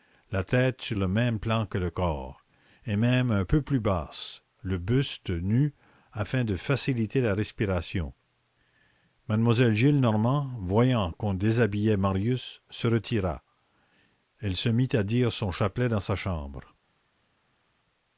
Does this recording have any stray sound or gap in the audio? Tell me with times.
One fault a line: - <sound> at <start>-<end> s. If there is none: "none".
none